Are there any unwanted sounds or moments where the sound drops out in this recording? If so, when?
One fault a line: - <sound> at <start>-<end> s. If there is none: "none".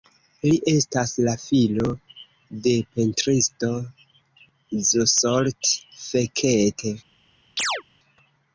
- chirp at 7.6-7.8 s